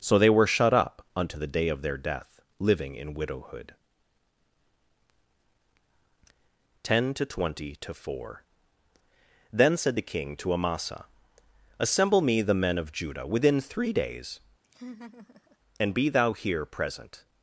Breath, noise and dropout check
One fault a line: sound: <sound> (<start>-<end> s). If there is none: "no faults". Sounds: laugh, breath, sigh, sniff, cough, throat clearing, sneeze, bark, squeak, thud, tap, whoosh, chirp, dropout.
sound: laugh (14.6-15.6 s)